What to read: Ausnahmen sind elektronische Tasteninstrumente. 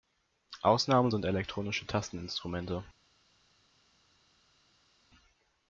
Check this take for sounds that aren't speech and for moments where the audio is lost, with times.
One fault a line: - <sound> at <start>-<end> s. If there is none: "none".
none